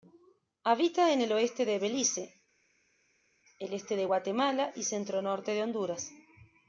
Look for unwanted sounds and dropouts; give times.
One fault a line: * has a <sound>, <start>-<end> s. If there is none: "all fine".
all fine